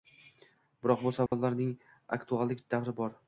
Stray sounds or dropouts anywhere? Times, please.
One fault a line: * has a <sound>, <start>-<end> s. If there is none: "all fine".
* has a dropout, 1.3-1.3 s